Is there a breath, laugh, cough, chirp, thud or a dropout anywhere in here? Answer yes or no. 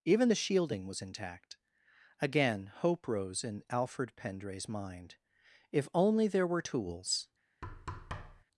yes